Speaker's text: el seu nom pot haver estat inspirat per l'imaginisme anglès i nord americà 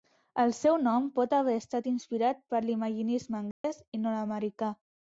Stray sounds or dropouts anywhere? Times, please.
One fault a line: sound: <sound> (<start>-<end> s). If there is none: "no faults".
sound: dropout (3.5-3.6 s)